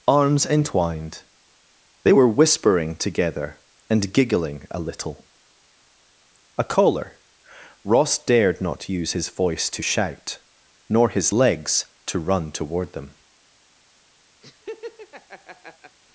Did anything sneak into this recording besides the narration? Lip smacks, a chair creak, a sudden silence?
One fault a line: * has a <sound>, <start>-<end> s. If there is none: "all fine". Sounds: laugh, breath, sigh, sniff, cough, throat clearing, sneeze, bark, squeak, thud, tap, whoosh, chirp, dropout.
* has a laugh, 14.4-16.0 s